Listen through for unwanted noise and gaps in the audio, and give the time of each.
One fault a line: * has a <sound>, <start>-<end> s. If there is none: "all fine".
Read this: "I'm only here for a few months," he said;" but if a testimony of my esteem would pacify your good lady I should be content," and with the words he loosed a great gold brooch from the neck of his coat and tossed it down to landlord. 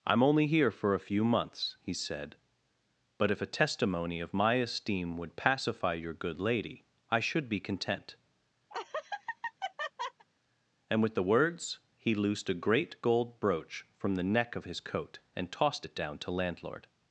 * has a laugh, 8.7-10.2 s